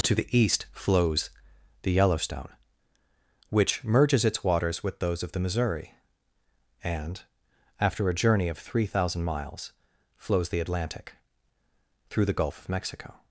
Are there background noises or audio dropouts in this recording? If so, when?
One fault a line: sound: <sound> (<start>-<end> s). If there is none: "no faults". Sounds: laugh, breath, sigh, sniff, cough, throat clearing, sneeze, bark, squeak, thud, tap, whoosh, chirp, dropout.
no faults